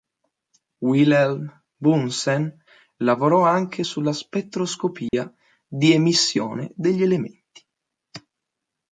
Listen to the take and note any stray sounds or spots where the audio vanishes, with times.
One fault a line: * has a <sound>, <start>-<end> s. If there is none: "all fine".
* has a dropout, 5.1-5.1 s